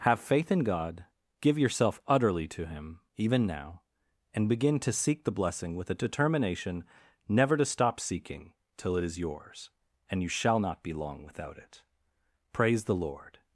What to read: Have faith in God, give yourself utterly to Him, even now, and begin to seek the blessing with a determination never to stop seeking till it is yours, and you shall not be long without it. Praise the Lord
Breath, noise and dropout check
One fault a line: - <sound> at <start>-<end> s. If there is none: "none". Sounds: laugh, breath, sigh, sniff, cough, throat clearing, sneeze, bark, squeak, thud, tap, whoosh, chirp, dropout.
none